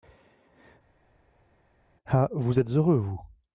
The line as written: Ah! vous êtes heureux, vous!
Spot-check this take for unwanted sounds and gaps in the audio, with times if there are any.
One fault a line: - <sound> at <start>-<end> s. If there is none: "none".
none